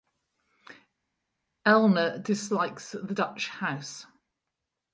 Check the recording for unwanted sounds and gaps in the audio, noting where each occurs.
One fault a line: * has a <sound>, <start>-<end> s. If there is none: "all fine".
all fine